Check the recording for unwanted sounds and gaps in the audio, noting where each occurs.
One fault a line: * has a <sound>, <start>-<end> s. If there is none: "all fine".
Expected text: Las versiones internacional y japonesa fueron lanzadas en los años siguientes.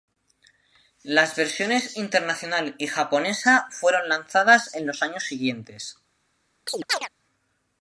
* has a chirp, 6.7-7.1 s